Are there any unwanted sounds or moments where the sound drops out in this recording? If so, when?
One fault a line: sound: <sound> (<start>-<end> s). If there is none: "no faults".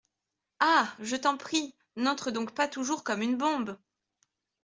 no faults